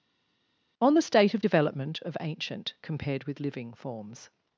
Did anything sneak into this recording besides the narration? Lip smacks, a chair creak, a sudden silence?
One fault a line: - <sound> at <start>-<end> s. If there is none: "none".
none